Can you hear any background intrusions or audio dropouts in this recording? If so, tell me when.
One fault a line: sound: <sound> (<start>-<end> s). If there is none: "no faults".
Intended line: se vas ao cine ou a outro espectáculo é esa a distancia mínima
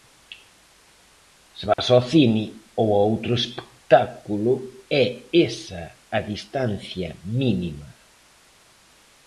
sound: dropout (1.7-1.8 s)